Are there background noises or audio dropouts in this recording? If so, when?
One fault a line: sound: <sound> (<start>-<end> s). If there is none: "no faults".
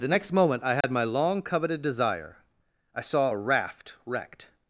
sound: dropout (0.8-0.8 s)